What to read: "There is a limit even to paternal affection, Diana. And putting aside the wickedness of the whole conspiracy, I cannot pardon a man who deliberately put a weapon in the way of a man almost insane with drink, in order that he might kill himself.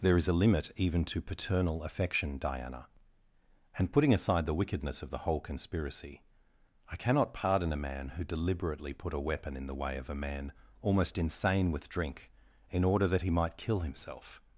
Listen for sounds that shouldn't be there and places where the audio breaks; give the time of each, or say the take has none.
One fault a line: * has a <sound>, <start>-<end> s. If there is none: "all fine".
all fine